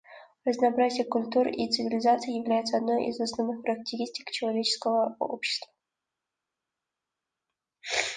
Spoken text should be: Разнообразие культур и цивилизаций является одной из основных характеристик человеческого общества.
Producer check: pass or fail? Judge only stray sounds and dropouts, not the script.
pass